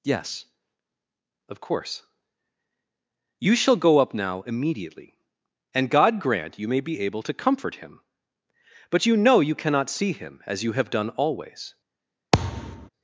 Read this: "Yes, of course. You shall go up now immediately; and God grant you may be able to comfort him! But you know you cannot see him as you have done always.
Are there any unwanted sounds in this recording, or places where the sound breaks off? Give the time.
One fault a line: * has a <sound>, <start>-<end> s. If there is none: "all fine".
* has a thud, 12.3-12.9 s